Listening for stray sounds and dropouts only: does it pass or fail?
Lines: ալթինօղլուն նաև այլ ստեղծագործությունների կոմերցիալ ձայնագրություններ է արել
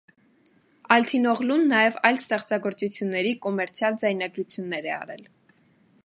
pass